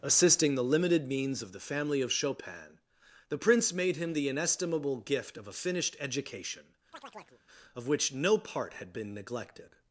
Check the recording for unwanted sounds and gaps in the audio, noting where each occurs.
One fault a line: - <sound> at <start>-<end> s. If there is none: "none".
- chirp at 6.9-7.4 s